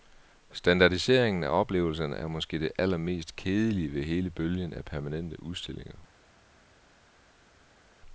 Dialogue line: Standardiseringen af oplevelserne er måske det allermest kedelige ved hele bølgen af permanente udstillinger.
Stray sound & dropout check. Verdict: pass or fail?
pass